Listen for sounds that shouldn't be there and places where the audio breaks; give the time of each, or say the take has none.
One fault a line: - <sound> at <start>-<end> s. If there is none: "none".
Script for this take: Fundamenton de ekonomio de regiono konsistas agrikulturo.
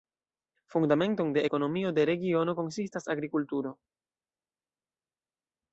none